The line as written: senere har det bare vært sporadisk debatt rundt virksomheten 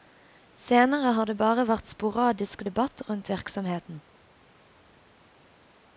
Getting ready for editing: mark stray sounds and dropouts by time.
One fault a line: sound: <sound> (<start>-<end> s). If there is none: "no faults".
no faults